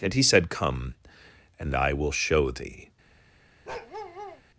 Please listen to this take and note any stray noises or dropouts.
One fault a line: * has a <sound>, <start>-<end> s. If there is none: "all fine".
* has a bark, 3.6-4.4 s